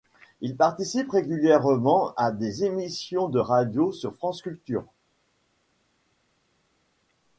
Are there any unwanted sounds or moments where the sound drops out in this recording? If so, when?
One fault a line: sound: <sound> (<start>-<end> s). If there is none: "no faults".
no faults